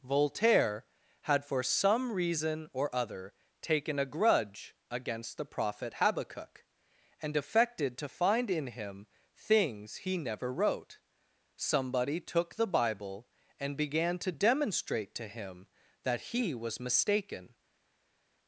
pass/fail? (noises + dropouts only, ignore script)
pass